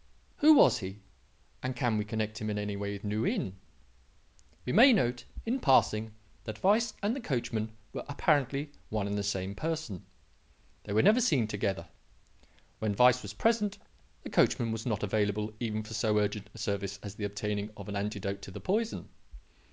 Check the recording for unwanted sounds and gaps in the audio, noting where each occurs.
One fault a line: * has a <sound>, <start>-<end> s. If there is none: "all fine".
all fine